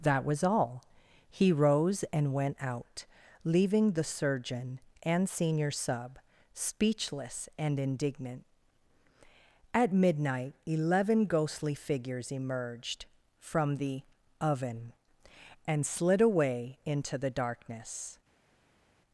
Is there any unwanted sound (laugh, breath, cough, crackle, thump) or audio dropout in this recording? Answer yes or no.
no